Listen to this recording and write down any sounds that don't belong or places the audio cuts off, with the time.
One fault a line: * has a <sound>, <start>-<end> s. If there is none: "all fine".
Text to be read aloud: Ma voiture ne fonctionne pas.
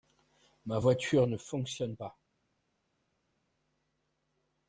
all fine